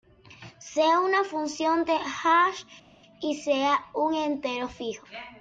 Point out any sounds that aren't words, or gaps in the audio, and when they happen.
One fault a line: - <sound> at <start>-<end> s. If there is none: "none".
none